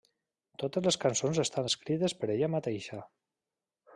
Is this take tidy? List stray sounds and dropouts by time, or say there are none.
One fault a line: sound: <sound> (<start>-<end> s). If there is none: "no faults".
no faults